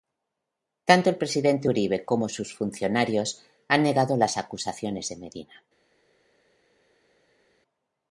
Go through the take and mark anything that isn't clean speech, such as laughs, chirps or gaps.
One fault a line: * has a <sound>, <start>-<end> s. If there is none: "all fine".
all fine